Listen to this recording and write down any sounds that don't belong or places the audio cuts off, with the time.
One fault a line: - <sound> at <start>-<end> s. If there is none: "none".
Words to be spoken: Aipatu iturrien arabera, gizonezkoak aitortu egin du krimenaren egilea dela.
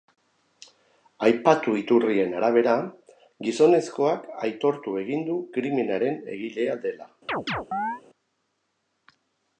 - chirp at 7.3-8.0 s